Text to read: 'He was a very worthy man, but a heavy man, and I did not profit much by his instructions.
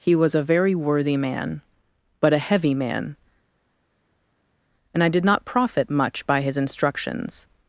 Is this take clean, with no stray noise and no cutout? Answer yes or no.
yes